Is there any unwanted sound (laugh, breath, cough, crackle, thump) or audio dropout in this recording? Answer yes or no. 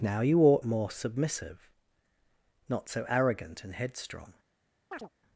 yes